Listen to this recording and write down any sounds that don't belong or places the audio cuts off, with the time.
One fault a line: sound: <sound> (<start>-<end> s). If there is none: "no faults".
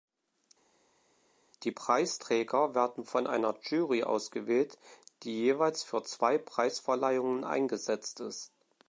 no faults